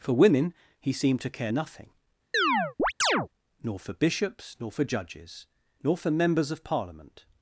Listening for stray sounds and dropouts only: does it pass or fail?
fail